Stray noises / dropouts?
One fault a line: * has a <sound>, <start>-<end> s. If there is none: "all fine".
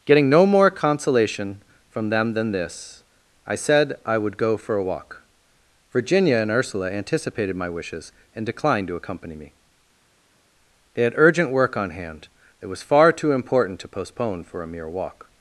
all fine